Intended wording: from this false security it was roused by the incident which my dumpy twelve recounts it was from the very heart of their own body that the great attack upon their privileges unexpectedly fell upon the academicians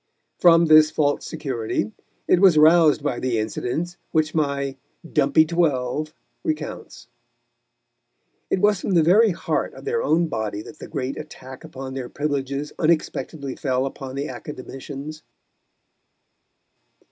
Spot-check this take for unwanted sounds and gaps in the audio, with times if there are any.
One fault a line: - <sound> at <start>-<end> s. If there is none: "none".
none